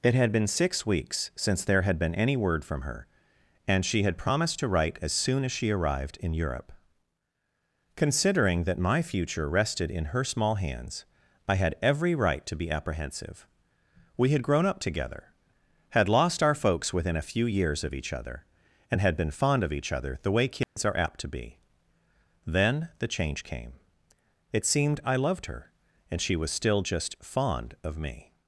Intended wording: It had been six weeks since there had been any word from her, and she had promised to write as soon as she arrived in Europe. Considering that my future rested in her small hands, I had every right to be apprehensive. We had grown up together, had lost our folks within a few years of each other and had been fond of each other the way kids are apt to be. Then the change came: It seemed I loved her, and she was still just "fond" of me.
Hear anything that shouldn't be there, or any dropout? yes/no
yes